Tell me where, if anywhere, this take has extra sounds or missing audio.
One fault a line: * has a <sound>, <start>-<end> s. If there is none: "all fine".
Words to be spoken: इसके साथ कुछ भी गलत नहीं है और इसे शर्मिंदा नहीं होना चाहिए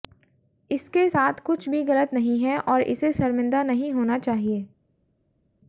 all fine